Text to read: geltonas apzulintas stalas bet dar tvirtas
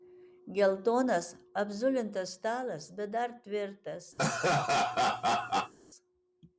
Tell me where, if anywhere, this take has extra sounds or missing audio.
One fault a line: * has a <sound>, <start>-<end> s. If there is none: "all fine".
* has a laugh, 4.2-5.7 s